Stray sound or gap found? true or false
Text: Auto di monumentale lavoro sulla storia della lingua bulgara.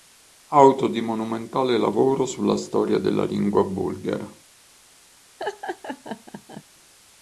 true